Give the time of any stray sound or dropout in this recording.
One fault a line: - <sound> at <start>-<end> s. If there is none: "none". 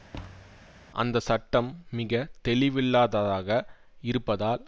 - thud at 0.1-0.7 s